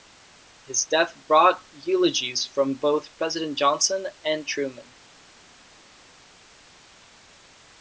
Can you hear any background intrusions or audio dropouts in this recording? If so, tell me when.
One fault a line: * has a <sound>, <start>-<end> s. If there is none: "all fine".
all fine